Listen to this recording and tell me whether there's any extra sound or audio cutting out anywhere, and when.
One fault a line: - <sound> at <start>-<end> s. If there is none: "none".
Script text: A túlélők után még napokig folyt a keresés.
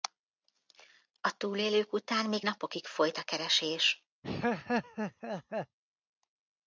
- laugh at 4.2-5.8 s